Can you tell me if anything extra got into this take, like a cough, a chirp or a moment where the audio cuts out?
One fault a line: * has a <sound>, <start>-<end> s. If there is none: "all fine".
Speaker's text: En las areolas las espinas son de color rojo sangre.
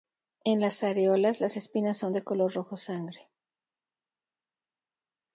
all fine